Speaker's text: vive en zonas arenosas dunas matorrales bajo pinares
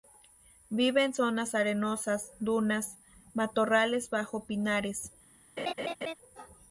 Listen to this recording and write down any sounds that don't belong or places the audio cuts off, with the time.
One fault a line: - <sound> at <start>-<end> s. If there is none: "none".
- laugh at 5.6-6.1 s